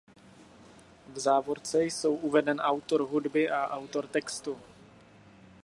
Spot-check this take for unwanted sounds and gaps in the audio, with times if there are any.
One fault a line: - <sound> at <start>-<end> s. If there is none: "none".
none